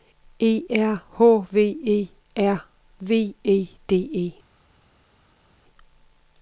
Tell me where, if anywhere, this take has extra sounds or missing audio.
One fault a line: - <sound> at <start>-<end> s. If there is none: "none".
none